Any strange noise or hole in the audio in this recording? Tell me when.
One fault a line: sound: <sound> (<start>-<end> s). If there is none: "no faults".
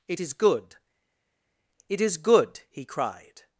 no faults